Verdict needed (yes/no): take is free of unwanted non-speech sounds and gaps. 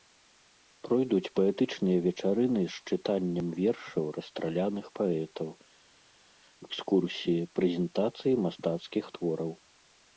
yes